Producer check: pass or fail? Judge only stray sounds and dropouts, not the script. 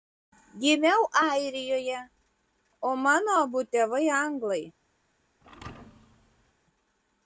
fail